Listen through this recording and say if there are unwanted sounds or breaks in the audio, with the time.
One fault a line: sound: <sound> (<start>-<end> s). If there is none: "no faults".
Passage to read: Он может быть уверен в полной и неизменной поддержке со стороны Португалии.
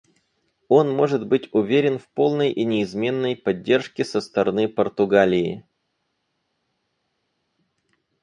no faults